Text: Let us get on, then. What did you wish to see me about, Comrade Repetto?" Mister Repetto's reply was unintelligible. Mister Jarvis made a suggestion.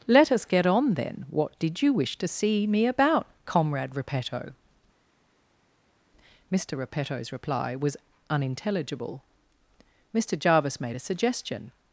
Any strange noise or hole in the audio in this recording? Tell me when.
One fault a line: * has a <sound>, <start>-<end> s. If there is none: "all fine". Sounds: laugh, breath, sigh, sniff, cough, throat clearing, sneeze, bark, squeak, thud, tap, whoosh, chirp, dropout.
all fine